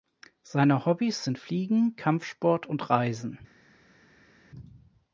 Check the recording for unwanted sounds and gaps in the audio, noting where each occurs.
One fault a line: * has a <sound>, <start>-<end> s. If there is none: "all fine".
all fine